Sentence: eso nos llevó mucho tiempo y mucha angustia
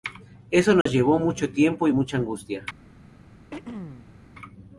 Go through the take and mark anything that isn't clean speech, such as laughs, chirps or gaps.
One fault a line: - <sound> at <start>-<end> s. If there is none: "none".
- dropout at 0.8-0.9 s
- throat clearing at 3.5-4.2 s